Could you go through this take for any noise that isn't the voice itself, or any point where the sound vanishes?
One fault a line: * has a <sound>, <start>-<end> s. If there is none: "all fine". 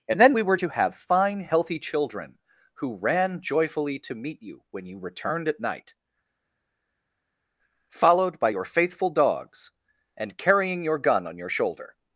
all fine